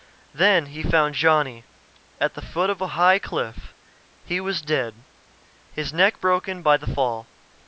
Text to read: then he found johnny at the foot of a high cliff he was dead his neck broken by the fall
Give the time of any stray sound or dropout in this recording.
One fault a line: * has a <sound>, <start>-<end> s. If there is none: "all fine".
all fine